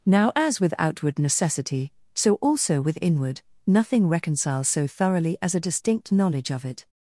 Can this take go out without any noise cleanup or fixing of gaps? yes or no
yes